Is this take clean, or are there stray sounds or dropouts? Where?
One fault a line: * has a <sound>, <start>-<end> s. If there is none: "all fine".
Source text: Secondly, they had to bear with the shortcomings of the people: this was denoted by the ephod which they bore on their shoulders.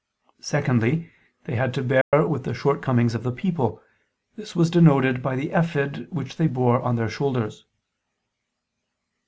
* has a dropout, 2.0-2.1 s